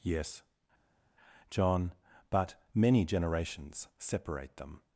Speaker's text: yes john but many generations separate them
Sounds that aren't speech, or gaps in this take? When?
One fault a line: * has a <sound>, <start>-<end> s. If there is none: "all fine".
all fine